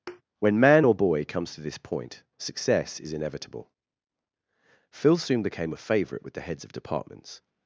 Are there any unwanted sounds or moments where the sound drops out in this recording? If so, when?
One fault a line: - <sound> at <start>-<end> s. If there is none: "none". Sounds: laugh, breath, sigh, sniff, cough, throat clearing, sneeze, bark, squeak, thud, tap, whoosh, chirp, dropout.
- thud at 0.1-0.2 s